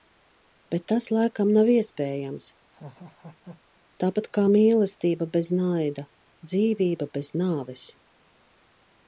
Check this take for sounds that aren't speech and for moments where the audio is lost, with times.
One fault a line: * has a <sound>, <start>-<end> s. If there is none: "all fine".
* has a laugh, 2.7-3.8 s